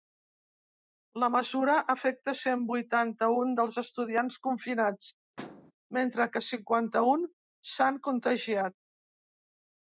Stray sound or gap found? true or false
true